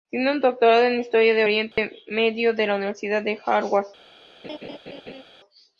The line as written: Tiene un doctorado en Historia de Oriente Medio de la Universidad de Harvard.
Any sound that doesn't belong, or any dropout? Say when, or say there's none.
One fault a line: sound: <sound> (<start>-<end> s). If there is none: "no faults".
sound: dropout (1.7-1.8 s)
sound: laugh (4.4-5.2 s)